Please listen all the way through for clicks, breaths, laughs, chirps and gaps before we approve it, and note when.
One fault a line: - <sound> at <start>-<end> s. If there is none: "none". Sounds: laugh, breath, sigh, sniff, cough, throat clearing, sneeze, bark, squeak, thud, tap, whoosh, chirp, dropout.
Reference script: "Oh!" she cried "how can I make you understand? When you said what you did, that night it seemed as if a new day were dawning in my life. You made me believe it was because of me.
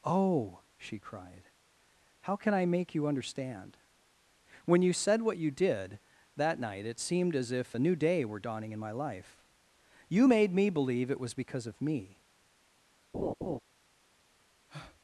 - laugh at 13.1-13.6 s
- breath at 14.7-15.0 s